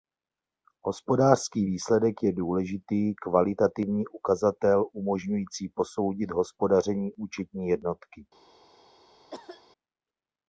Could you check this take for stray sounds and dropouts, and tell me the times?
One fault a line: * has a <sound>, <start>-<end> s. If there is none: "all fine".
* has a cough, 9.3-9.6 s